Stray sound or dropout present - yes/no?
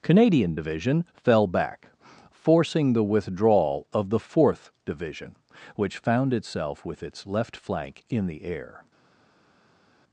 no